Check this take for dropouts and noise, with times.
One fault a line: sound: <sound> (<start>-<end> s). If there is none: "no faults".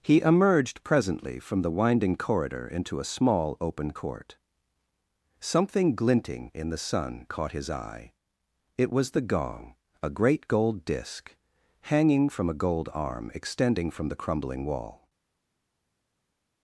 no faults